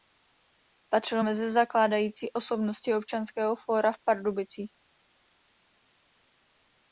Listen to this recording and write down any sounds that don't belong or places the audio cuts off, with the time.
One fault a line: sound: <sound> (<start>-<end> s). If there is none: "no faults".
no faults